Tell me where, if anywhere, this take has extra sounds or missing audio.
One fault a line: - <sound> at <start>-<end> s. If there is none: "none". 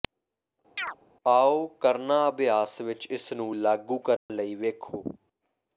- chirp at 0.8-1.0 s
- dropout at 4.2-4.3 s